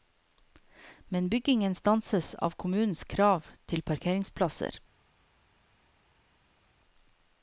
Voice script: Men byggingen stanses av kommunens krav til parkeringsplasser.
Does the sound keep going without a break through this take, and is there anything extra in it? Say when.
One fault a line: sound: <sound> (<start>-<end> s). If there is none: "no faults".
no faults